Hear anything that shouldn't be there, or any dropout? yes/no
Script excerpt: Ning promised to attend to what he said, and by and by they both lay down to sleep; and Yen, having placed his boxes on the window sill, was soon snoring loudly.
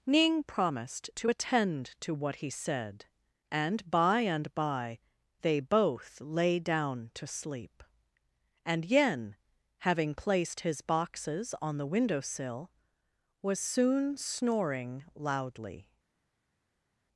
no